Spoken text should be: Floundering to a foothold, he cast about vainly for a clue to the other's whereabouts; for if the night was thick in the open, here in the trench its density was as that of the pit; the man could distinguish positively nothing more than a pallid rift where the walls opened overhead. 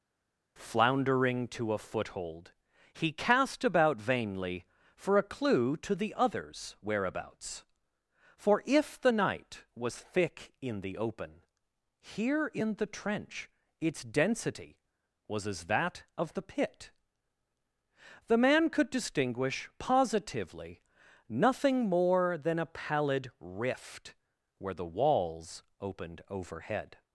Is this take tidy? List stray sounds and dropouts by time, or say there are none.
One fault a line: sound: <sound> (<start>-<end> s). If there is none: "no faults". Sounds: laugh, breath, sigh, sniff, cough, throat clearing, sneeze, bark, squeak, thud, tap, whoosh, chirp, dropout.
no faults